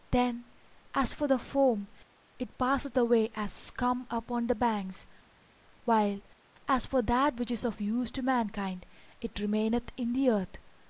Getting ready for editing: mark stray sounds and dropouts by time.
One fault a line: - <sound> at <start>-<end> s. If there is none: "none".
none